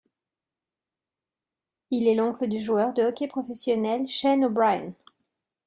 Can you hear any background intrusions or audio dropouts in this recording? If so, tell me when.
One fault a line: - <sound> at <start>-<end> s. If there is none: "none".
none